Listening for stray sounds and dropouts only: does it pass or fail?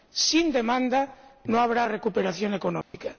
fail